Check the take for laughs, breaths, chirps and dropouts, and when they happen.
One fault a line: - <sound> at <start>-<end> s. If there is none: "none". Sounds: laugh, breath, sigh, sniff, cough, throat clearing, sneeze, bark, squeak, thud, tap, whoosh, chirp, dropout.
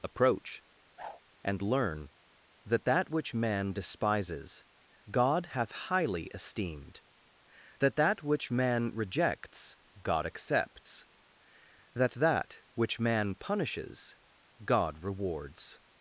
- whoosh at 1.0-1.2 s